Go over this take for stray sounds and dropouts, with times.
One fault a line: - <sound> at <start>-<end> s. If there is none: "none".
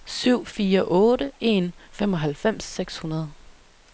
none